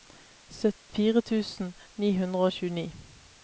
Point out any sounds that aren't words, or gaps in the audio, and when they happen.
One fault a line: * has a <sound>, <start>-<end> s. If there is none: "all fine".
* has a dropout, 0.8-0.9 s